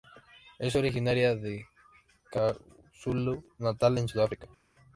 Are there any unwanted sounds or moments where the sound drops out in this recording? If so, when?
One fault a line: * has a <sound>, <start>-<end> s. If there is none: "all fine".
all fine